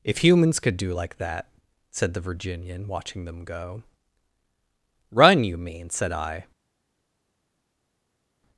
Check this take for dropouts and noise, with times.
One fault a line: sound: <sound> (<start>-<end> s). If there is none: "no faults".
no faults